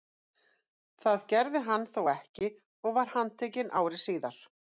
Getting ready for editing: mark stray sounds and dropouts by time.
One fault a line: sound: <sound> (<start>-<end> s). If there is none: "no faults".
no faults